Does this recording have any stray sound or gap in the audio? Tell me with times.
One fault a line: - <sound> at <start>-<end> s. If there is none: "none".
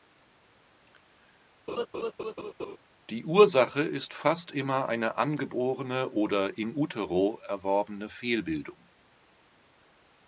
- laugh at 1.7-2.8 s